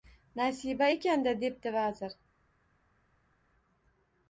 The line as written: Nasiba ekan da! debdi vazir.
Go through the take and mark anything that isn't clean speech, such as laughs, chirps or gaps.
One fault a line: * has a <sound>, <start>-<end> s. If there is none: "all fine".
all fine